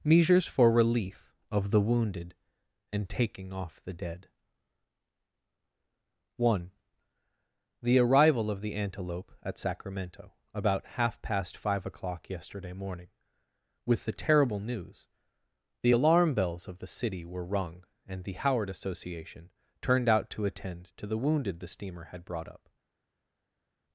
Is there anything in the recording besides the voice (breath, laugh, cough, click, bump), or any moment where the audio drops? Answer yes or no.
no